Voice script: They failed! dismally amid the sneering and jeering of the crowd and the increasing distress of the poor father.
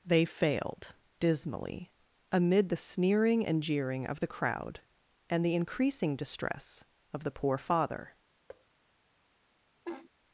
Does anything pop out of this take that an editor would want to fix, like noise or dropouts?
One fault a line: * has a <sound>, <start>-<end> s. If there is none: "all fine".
* has a thud, 8.5-8.7 s
* has a laugh, 9.8-10.1 s